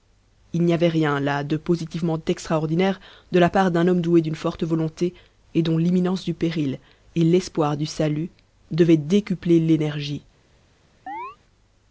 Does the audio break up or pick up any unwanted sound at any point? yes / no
yes